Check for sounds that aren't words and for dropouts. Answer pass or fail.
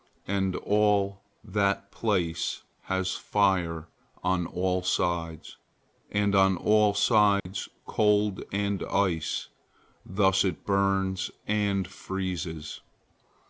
fail